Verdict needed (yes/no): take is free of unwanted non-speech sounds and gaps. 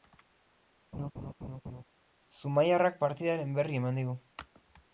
no